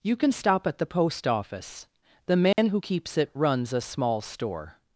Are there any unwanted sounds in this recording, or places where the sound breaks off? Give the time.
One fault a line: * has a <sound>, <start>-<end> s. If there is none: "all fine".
* has a dropout, 2.5-2.6 s